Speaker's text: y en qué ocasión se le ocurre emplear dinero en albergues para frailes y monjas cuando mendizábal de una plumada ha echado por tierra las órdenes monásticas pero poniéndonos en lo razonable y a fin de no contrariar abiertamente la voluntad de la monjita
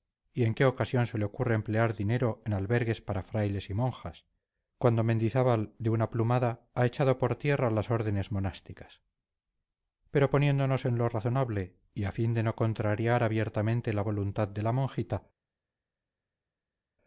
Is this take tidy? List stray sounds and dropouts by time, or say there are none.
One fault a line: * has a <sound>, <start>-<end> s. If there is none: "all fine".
all fine